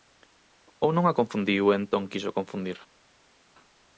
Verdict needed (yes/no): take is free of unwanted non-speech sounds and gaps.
yes